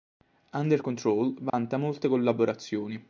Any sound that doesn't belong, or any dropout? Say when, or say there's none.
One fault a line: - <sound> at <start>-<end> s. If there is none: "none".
- dropout at 1.5-1.5 s